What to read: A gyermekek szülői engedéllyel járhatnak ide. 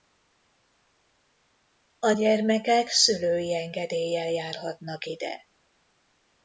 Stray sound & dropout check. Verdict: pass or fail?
pass